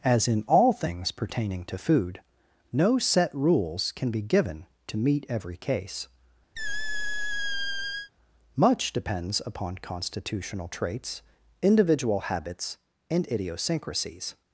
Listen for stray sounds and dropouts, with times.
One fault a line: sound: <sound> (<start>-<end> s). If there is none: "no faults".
sound: squeak (6.6-8.1 s)